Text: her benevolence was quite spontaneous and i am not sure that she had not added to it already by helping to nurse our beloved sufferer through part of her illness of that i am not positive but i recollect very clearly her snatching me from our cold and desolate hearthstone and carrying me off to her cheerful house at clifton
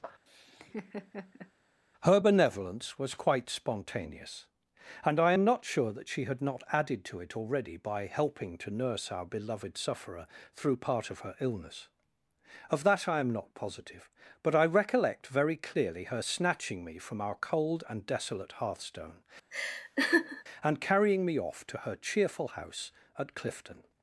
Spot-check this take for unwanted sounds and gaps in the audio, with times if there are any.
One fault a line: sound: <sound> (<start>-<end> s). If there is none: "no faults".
sound: laugh (0.3-1.5 s)
sound: laugh (19.5-20.4 s)